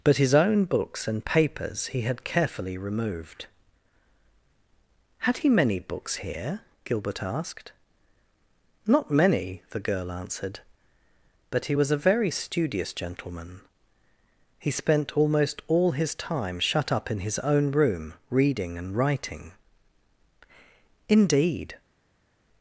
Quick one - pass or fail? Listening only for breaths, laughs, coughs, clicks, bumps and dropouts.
pass